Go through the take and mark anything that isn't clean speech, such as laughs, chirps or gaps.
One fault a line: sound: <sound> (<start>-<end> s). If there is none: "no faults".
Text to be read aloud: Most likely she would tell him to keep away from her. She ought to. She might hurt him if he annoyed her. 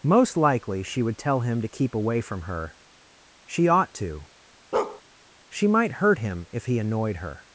sound: bark (4.7-5.0 s)